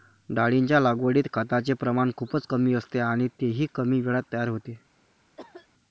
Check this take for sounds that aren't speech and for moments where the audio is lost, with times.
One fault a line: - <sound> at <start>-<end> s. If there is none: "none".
- cough at 5.4-5.7 s